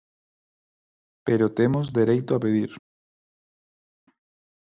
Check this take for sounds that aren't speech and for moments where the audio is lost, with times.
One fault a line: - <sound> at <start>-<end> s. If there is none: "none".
none